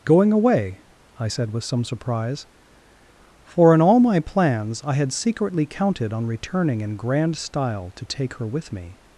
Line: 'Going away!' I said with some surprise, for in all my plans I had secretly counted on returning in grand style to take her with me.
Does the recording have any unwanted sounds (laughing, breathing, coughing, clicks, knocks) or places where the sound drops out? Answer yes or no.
no